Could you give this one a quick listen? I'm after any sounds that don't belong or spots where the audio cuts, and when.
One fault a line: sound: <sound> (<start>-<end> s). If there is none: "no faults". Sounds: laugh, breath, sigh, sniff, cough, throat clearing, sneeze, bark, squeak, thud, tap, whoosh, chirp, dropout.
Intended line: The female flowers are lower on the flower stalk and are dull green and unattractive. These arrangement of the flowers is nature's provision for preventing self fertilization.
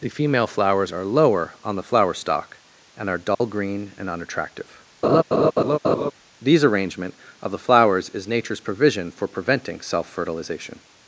sound: dropout (3.3-3.4 s)
sound: laugh (5.0-6.1 s)